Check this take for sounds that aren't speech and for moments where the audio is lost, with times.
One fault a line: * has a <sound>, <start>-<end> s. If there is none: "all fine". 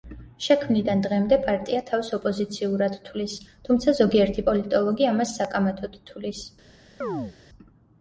* has a chirp, 7.0-7.4 s